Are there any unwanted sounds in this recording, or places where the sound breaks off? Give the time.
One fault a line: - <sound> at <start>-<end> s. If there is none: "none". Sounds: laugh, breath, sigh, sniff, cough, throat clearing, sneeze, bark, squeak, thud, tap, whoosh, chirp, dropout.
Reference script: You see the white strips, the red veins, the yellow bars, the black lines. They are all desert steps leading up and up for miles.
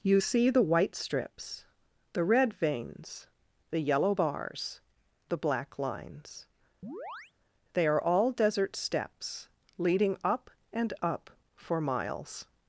- chirp at 6.8-7.3 s